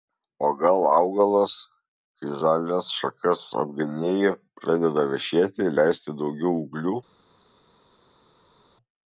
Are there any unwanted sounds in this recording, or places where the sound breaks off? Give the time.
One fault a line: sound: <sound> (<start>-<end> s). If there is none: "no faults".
no faults